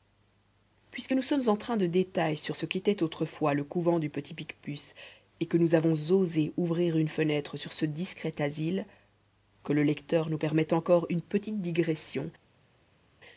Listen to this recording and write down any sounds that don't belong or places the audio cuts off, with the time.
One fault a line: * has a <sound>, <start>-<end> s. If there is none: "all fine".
all fine